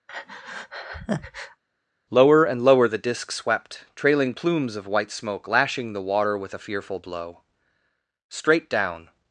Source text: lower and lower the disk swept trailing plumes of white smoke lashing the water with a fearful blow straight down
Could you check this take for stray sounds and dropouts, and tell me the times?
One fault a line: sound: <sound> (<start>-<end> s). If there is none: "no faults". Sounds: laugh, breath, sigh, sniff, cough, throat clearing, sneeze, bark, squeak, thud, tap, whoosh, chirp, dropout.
sound: breath (0.1-1.6 s)